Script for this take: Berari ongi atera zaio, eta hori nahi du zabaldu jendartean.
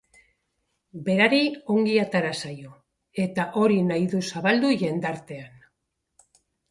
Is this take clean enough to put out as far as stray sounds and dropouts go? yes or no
yes